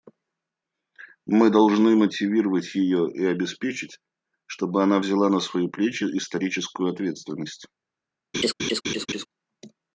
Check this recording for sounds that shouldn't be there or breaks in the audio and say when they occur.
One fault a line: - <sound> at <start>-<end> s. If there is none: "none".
- laugh at 8.3-9.3 s